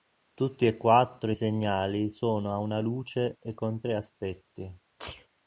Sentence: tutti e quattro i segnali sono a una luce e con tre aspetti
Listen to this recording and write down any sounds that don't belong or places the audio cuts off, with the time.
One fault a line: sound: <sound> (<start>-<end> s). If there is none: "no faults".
sound: sneeze (5.0-5.3 s)